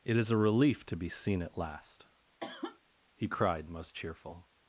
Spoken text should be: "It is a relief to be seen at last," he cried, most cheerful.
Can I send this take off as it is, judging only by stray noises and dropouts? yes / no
no